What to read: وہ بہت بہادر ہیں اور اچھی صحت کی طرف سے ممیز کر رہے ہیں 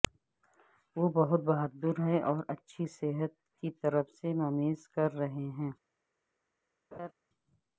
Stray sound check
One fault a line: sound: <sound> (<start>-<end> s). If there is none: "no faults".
sound: laugh (6.9-7.1 s)